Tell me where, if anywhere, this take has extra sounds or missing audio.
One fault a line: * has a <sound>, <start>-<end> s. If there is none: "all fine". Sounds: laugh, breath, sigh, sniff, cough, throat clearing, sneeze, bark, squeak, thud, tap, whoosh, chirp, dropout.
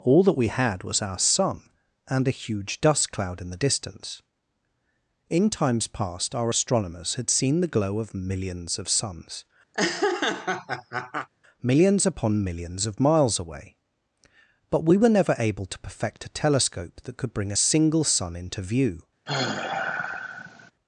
* has a laugh, 9.7-11.3 s
* has a sigh, 19.3-20.7 s